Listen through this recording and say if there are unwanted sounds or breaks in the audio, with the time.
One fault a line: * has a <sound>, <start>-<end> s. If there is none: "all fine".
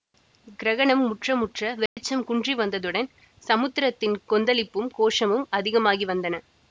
* has a dropout, 1.9-2.0 s